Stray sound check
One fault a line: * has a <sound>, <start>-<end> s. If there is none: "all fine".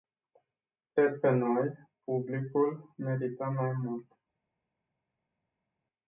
all fine